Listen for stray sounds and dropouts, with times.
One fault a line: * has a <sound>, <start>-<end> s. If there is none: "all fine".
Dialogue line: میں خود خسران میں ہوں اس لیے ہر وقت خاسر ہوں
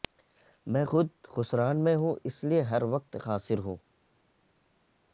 all fine